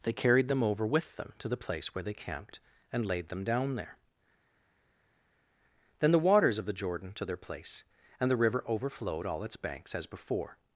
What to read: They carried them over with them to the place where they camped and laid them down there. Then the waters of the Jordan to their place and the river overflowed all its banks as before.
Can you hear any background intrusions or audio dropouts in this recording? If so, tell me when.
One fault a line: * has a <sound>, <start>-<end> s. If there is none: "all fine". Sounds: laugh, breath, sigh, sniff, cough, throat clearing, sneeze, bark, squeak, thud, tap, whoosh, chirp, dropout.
all fine